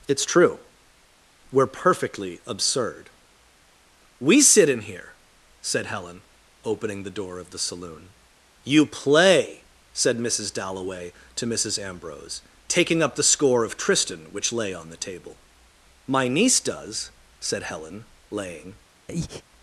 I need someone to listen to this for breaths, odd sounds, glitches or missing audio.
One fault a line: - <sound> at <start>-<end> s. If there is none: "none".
- breath at 19.1-19.4 s